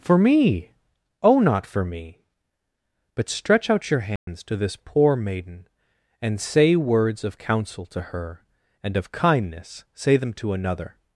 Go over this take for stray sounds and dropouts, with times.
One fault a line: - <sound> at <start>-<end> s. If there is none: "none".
- dropout at 4.2-4.3 s